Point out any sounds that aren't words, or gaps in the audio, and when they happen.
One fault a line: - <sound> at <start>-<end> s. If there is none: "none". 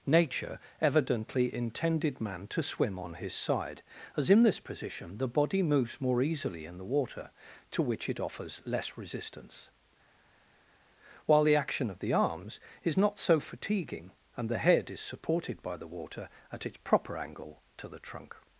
none